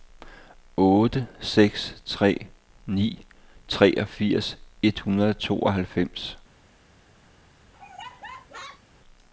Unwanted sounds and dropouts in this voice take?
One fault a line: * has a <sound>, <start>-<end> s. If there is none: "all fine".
* has a laugh, 7.7-8.8 s